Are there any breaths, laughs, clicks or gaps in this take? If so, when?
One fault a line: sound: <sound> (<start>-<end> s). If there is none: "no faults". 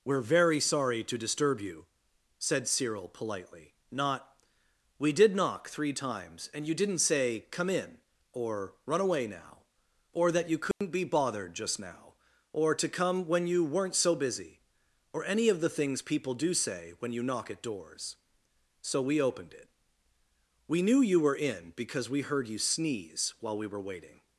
sound: dropout (10.7-10.8 s)